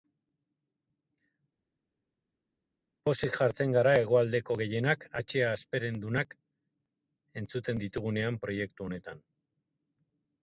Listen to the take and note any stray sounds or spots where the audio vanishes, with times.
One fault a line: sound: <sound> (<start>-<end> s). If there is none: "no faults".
no faults